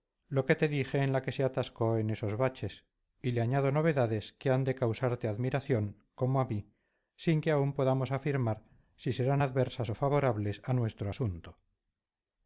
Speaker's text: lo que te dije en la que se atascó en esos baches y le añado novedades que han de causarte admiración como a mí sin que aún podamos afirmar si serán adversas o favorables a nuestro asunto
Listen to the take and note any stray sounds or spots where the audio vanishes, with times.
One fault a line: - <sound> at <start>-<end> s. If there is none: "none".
none